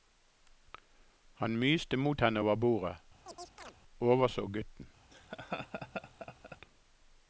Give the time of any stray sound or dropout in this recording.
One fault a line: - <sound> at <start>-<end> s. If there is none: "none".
- chirp at 3.3-3.8 s
- laugh at 5.1-6.6 s